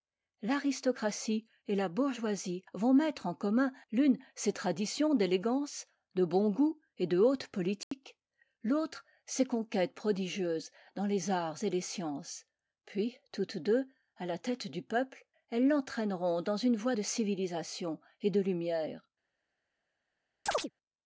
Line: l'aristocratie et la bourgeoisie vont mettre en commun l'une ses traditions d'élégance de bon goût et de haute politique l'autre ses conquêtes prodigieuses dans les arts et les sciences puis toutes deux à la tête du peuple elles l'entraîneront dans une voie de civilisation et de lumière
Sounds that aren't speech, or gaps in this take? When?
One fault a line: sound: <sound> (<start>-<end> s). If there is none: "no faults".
sound: dropout (7.8-7.9 s)
sound: chirp (20.5-20.7 s)